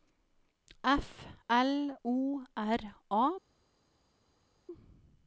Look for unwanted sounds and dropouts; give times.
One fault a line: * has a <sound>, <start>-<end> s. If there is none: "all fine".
all fine